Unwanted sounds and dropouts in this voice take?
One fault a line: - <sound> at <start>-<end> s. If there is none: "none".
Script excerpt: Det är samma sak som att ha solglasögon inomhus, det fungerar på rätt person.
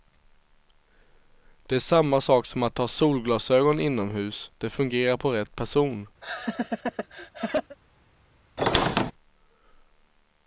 - laugh at 6.2-7.8 s
- squeak at 8.6-9.1 s